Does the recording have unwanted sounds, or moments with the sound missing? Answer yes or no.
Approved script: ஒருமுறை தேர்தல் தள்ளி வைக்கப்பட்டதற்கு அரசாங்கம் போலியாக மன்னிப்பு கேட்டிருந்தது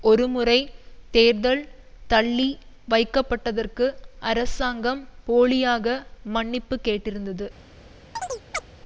yes